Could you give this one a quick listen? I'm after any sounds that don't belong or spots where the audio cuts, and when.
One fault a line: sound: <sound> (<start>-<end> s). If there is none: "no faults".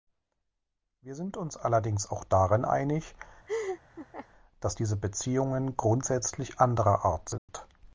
sound: laugh (3.5-4.3 s)
sound: dropout (7.4-7.5 s)